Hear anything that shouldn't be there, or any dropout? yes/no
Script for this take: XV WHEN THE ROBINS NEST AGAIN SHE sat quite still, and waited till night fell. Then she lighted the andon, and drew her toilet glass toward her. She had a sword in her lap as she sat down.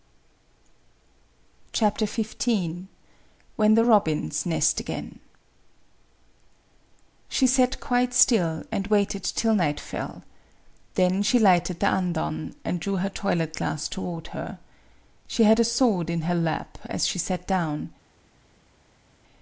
no